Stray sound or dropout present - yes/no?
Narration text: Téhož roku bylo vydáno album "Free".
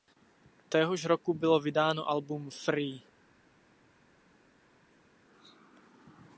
no